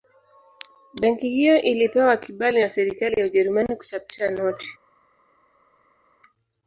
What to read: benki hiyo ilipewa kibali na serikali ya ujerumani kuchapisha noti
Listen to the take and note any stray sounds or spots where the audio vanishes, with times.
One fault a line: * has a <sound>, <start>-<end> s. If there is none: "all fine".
all fine